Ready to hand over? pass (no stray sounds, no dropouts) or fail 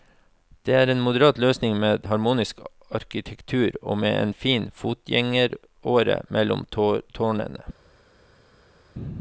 pass